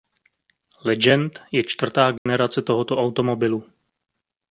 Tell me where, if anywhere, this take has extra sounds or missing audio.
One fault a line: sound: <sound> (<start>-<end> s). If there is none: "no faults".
sound: dropout (2.2-2.3 s)